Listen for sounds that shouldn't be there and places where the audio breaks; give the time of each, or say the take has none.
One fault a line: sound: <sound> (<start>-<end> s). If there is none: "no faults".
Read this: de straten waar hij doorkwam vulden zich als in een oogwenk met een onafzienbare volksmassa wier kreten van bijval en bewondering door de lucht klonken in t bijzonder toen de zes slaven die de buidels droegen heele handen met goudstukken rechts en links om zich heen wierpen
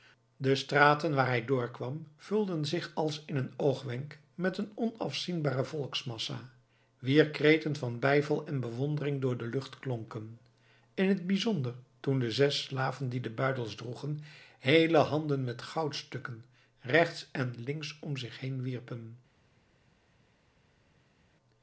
no faults